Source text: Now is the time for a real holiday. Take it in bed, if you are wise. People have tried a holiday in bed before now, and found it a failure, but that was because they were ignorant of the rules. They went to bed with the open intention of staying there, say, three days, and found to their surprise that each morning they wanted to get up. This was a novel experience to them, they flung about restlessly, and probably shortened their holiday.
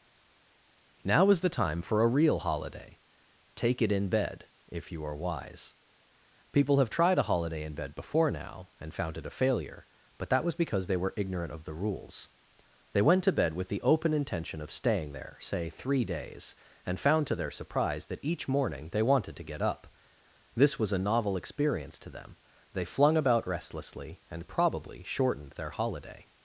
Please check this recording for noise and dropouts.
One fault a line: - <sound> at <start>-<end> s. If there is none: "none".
none